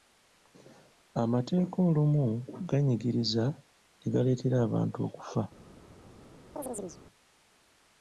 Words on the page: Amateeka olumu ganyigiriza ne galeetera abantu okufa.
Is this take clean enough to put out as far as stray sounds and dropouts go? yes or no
no